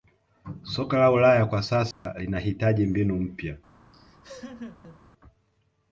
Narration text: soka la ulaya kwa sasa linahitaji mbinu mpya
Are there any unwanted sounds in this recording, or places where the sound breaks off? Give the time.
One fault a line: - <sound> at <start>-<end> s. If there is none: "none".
- dropout at 1.9-2.1 s
- laugh at 3.9-5.0 s